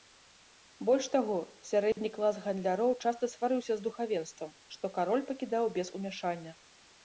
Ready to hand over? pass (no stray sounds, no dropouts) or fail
fail